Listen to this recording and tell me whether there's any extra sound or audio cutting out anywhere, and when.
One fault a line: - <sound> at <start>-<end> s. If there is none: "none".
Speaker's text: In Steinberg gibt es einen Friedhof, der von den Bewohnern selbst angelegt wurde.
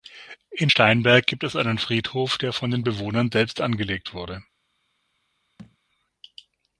- thud at 5.6-5.8 s